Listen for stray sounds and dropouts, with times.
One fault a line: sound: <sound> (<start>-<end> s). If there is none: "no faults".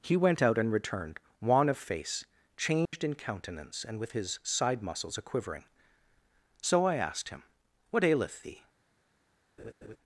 sound: dropout (2.9-2.9 s)
sound: laugh (9.6-10.0 s)